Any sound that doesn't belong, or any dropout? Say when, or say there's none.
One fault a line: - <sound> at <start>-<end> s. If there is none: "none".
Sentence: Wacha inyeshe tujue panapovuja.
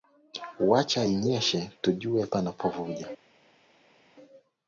none